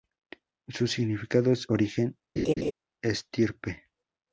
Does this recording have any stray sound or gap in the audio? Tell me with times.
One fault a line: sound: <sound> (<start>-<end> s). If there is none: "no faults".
sound: laugh (2.4-2.7 s)